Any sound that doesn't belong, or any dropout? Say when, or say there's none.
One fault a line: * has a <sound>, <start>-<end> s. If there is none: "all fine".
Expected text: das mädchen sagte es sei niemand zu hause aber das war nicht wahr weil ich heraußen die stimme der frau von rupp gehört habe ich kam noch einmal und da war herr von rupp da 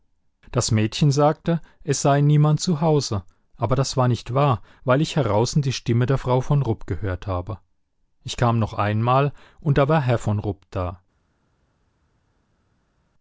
all fine